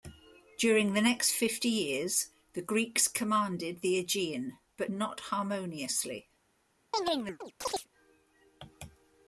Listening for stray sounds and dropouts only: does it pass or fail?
fail